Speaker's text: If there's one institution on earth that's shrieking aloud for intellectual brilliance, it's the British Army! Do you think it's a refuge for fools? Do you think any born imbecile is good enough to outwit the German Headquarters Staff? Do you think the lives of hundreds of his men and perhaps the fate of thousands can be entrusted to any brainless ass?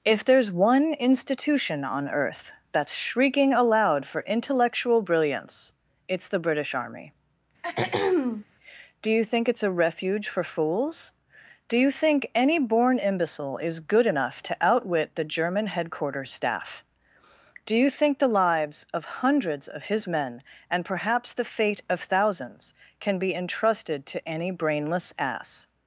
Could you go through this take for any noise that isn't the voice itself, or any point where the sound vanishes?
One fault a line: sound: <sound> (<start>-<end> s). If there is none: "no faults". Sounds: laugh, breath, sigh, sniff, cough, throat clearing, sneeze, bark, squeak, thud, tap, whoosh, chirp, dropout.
sound: throat clearing (7.6-8.5 s)